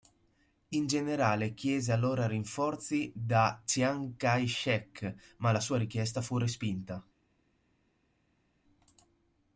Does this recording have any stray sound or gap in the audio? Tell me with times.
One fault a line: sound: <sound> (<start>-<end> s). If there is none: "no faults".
no faults